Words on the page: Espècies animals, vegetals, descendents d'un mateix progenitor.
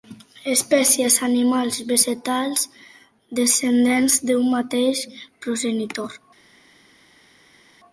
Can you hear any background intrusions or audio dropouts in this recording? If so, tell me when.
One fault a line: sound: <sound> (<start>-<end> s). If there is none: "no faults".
no faults